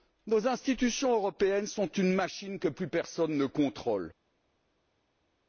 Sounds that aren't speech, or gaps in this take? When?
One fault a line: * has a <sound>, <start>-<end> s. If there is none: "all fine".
all fine